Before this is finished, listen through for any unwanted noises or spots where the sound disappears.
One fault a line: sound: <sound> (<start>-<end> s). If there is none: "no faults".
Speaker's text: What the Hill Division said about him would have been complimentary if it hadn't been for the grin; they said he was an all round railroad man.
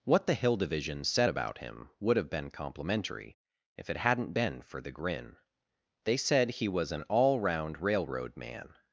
no faults